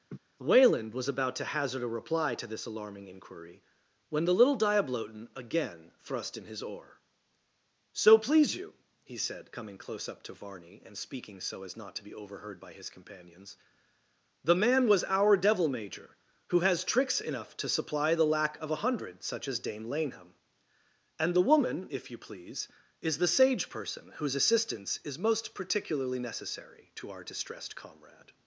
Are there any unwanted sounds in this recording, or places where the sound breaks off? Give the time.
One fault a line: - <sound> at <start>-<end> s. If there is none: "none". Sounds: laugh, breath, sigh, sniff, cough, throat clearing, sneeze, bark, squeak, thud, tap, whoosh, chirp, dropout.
- laugh at 0.1-0.2 s